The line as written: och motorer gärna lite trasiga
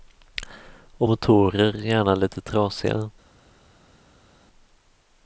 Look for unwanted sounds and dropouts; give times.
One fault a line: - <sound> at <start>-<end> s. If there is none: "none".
none